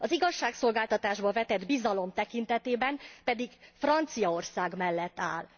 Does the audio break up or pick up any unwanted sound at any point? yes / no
no